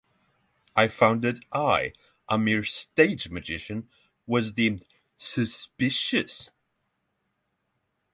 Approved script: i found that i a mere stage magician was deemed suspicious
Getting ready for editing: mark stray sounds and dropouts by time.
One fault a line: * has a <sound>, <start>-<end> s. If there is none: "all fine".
all fine